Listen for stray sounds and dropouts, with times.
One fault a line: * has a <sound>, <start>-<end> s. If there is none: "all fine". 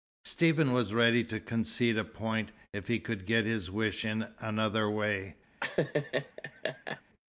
* has a laugh, 5.6-7.0 s